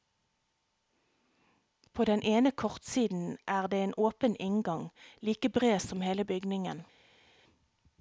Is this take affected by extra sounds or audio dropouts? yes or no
no